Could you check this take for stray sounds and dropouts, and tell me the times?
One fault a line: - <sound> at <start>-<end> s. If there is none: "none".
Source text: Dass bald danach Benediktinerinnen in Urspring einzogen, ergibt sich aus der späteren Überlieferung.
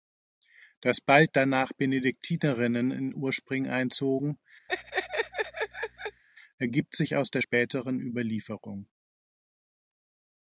- laugh at 4.7-6.2 s